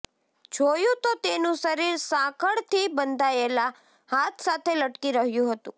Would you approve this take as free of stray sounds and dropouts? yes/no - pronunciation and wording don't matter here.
yes